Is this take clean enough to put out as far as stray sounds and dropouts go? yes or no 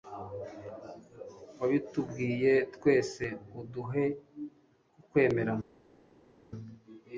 yes